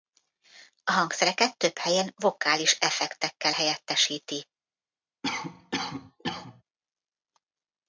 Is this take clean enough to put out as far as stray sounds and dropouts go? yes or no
no